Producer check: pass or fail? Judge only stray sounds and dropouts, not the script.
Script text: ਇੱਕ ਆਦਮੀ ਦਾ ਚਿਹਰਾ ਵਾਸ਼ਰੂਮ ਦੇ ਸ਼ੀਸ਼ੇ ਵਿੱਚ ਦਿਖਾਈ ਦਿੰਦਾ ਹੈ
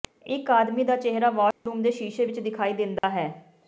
fail